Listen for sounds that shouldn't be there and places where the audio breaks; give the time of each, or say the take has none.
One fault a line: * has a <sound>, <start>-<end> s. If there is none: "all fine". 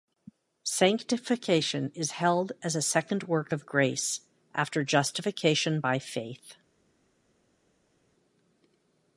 all fine